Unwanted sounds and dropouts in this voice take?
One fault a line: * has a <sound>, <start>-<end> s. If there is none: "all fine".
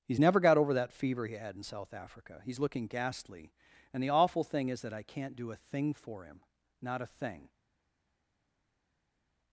all fine